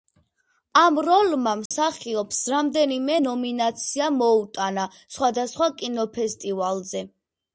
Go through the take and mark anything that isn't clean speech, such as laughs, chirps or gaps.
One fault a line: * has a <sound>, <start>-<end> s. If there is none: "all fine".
* has a dropout, 1.7-1.7 s